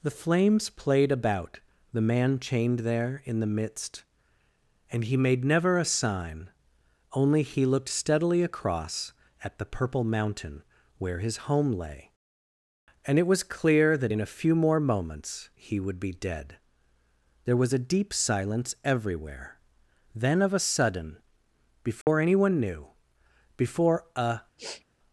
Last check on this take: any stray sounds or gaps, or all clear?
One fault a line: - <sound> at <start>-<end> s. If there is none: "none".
- dropout at 22.0-22.1 s
- sniff at 24.6-24.8 s